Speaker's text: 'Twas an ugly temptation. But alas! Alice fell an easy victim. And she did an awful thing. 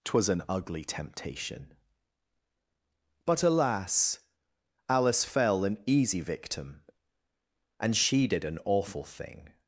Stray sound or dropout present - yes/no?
no